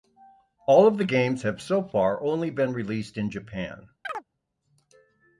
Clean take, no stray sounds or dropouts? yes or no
no